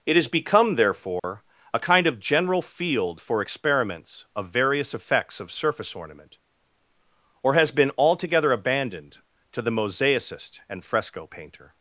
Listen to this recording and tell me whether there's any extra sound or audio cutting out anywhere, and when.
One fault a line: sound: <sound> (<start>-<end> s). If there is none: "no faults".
sound: dropout (1.2-1.2 s)